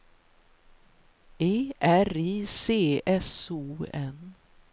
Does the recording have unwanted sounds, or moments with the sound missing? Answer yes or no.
no